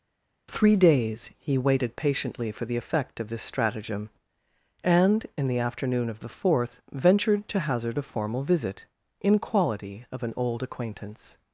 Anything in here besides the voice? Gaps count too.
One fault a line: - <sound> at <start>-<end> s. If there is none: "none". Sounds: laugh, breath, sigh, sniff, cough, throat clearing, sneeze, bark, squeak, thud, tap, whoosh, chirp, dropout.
none